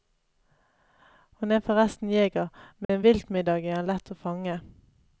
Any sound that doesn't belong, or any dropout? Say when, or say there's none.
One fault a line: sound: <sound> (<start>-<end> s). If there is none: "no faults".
sound: dropout (2.8-2.9 s)